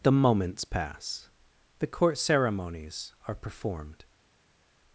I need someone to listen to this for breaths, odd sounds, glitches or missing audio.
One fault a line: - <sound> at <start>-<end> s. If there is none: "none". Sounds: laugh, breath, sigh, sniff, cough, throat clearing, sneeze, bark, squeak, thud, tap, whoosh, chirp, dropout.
none